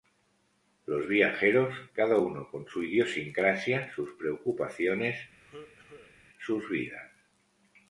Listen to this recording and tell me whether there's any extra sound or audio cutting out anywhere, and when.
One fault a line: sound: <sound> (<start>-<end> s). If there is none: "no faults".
sound: cough (5.4-6.2 s)